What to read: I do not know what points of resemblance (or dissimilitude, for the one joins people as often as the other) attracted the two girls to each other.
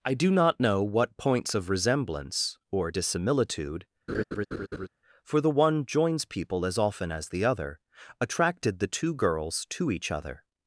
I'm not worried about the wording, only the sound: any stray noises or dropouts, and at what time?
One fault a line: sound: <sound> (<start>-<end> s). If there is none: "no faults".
sound: laugh (4.1-4.9 s)